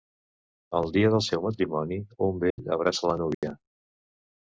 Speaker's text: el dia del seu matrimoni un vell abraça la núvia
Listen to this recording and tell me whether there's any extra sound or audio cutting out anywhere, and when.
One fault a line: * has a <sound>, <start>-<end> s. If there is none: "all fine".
* has a dropout, 2.5-2.6 s
* has a dropout, 3.3-3.4 s